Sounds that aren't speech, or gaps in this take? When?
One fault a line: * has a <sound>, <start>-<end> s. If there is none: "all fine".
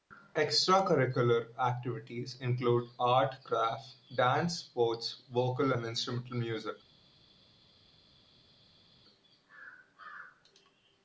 all fine